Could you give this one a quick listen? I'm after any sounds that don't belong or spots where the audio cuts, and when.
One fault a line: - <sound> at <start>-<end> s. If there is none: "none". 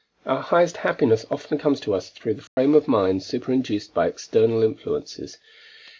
- dropout at 2.5-2.6 s